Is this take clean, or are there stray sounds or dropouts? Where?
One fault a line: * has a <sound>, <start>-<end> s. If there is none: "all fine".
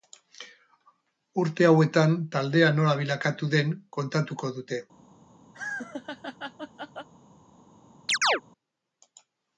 * has a laugh, 5.5-7.1 s
* has a chirp, 8.1-8.4 s